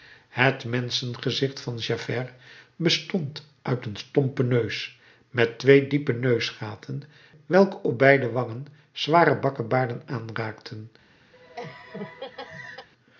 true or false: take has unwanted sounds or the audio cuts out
true